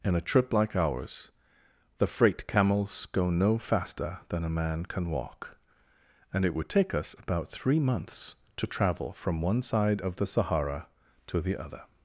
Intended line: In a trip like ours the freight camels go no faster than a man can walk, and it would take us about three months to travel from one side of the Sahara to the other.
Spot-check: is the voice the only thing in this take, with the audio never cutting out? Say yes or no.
yes